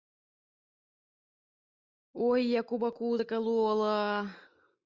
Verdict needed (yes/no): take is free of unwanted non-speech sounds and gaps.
yes